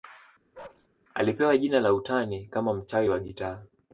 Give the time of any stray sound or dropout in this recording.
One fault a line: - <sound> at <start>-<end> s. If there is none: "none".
- bark at 0.5-0.9 s